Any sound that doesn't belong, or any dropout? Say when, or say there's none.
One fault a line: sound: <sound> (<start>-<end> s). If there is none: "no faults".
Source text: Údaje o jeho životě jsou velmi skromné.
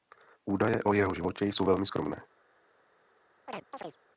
sound: chirp (3.5-4.0 s)